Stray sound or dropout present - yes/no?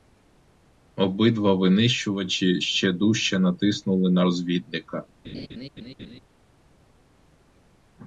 yes